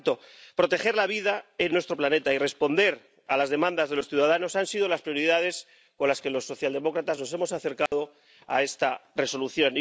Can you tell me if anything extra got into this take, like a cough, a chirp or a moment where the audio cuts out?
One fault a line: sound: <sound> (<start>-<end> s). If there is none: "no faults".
sound: dropout (7.9-7.9 s)